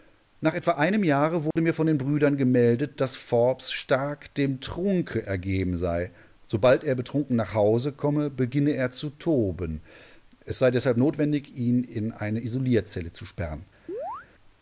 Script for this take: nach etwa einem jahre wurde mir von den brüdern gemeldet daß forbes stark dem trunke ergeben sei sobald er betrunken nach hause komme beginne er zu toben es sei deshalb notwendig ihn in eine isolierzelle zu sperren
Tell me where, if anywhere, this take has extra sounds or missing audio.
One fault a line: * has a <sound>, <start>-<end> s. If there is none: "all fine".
* has a dropout, 1.5-1.6 s
* has a chirp, 13.9-14.3 s